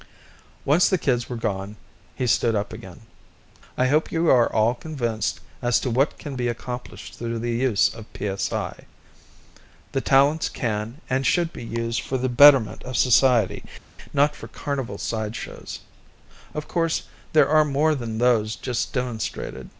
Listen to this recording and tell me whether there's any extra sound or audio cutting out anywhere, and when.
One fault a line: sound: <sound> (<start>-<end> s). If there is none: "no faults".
no faults